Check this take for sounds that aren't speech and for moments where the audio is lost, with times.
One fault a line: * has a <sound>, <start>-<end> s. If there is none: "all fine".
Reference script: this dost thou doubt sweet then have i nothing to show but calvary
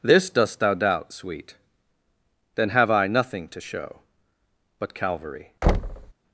* has a thud, 5.6-6.1 s